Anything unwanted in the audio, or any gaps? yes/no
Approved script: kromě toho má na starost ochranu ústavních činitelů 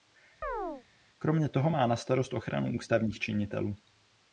yes